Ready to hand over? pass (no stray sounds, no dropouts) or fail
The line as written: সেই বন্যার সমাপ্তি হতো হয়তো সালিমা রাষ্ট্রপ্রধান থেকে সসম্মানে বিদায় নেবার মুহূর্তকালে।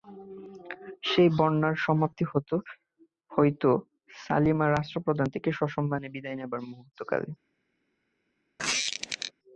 fail